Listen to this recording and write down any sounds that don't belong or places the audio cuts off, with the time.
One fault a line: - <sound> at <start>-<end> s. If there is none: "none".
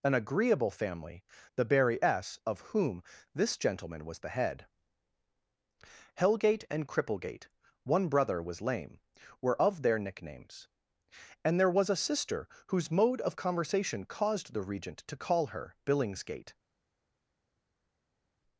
none